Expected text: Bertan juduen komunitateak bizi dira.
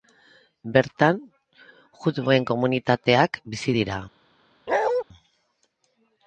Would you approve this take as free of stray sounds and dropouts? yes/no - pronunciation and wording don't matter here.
no